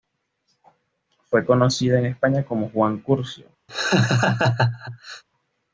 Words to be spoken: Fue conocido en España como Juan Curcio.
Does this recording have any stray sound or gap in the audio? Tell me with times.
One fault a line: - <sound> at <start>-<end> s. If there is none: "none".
- laugh at 3.7-5.2 s